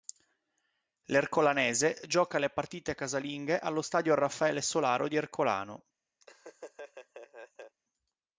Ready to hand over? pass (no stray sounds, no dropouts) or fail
fail